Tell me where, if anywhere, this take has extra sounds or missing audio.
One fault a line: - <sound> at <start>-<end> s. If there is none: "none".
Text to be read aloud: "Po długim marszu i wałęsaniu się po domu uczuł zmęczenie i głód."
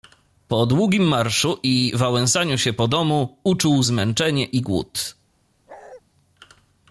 - bark at 5.7-6.0 s